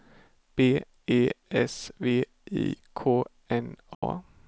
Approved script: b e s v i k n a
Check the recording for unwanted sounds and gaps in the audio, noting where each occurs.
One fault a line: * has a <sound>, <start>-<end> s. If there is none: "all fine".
* has a dropout, 3.9-4.0 s